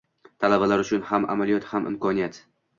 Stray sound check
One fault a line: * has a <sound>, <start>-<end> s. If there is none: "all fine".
all fine